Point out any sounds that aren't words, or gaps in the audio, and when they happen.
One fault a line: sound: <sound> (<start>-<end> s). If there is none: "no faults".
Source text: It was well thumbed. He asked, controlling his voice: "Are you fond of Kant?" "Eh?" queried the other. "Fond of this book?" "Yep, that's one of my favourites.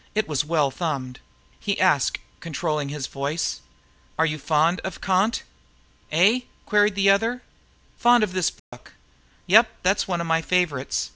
sound: dropout (8.6-8.7 s)